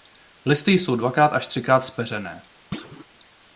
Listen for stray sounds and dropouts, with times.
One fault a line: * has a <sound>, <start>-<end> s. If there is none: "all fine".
* has a thud, 2.7-3.1 s